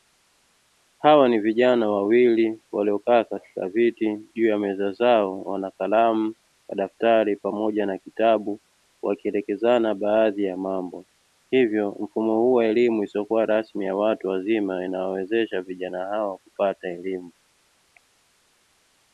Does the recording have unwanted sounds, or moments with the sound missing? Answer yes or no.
no